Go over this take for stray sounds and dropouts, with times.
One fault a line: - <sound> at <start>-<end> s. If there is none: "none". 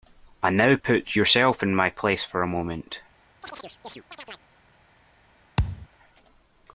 - chirp at 3.4-4.5 s
- thud at 5.6-5.9 s